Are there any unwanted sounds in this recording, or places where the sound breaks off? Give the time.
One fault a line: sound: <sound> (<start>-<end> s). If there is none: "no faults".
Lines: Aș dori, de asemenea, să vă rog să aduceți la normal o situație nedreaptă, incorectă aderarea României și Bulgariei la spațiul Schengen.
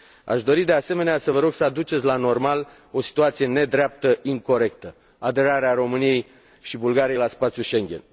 no faults